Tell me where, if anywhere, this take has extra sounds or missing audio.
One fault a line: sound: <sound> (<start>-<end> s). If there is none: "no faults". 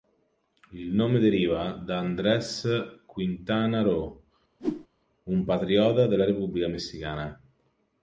sound: whoosh (4.6-4.9 s)